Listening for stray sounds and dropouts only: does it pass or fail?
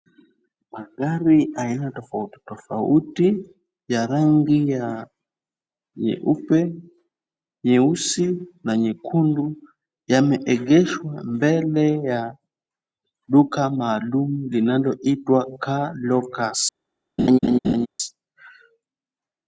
fail